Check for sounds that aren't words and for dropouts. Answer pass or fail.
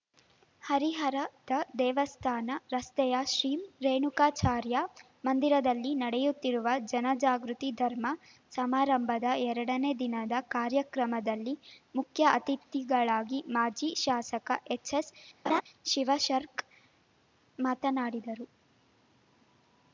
fail